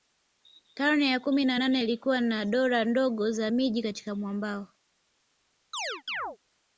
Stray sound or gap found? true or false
true